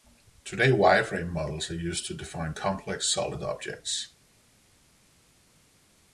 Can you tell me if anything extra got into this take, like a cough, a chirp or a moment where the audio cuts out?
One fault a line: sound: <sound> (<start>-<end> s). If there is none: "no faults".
no faults